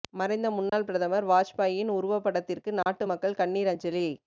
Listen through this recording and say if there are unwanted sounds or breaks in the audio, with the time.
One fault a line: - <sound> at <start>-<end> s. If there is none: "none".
- dropout at 0.7-0.7 s
- dropout at 2.8-2.9 s